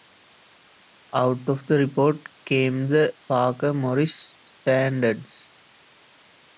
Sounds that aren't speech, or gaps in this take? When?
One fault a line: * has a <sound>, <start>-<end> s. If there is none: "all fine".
all fine